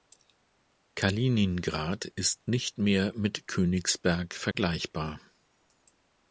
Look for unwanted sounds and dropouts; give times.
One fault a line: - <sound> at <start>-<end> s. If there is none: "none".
- dropout at 4.5-4.5 s